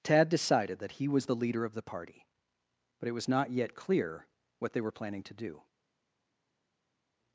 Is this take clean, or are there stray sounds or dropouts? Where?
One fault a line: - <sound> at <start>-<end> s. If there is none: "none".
none